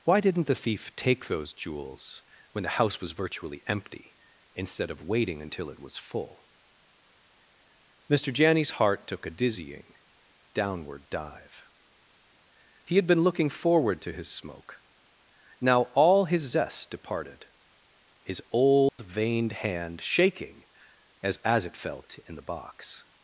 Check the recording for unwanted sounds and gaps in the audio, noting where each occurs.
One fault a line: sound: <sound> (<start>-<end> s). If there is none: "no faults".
sound: dropout (18.9-19.0 s)